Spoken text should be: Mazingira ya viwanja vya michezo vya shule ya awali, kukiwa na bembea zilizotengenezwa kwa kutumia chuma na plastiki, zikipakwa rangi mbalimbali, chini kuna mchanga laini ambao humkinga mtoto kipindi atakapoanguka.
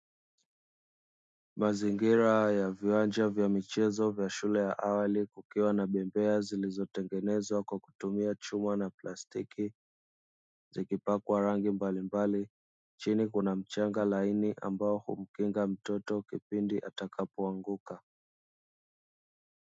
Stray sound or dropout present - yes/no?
no